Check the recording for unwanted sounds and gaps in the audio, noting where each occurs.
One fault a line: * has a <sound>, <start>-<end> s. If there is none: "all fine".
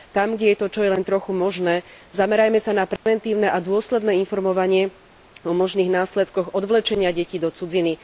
* has a dropout, 3.0-3.1 s